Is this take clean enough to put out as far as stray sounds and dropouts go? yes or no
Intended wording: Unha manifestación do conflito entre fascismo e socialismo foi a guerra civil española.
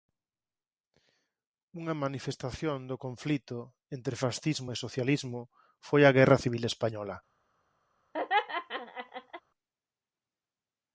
no